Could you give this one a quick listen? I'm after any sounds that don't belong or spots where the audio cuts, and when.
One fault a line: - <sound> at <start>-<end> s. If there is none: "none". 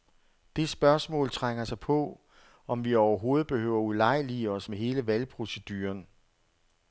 none